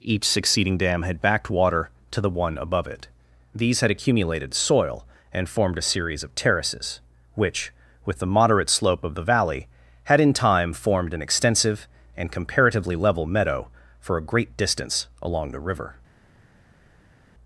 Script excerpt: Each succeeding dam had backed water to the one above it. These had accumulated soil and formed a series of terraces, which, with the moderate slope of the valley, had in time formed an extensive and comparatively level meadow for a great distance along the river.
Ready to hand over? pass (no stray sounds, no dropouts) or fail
pass